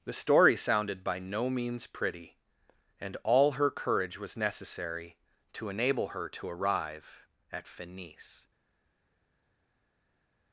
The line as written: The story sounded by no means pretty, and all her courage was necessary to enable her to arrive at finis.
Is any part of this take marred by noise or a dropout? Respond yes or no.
no